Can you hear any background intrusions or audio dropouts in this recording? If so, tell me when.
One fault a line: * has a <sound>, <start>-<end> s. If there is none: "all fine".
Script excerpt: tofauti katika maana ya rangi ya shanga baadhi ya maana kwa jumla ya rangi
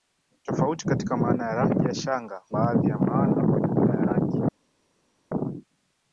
all fine